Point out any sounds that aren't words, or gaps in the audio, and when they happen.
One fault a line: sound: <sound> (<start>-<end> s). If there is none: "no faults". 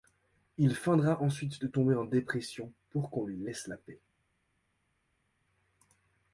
no faults